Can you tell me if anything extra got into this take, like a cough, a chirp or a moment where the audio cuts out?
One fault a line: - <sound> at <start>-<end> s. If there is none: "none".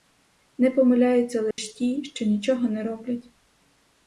- dropout at 1.5-1.6 s